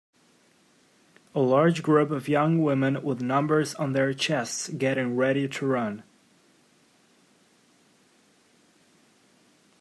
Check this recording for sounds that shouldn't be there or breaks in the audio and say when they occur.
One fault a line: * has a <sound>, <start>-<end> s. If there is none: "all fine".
all fine